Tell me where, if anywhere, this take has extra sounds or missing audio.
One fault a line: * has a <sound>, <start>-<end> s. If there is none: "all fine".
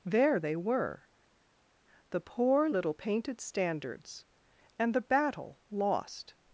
all fine